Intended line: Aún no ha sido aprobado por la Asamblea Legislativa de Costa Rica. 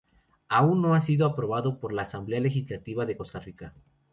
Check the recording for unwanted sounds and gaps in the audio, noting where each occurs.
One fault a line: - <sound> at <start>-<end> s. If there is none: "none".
none